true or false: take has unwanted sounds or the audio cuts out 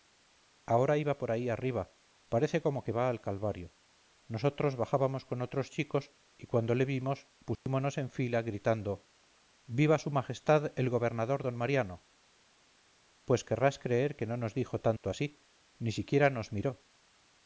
true